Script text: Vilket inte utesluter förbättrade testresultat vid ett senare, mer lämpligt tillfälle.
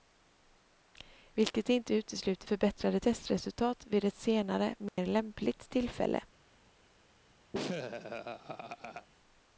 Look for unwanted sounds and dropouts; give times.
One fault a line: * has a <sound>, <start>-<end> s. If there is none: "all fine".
* has a dropout, 4.9-5.0 s
* has a laugh, 7.5-9.1 s